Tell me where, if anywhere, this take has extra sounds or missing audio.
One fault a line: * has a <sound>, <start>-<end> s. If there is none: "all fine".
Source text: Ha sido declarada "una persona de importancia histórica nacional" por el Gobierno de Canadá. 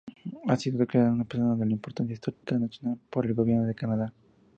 * has a dropout, 2.3-2.4 s